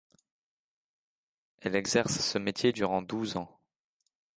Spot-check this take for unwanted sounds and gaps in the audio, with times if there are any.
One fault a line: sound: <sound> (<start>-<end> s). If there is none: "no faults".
no faults